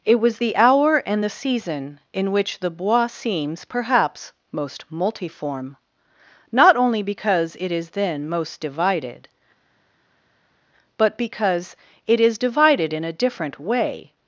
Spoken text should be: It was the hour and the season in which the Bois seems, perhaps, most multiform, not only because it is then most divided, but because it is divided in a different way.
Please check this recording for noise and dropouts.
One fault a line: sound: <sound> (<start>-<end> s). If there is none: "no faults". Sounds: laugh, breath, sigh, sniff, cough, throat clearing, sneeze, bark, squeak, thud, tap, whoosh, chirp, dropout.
no faults